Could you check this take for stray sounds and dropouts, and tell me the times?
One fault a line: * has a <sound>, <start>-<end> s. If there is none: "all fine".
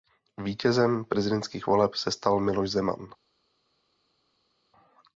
all fine